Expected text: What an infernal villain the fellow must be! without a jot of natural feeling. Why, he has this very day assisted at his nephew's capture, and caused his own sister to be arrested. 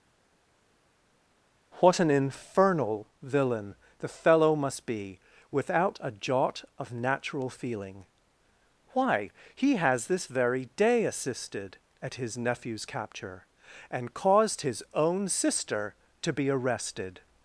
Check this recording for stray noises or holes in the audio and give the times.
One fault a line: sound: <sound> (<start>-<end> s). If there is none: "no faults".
no faults